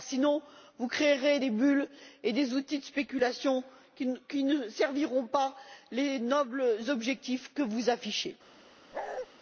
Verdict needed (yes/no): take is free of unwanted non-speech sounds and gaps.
no